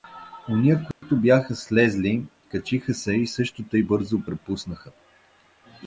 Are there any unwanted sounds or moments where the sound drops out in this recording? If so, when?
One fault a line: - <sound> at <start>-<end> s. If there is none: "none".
- dropout at 0.9-1.0 s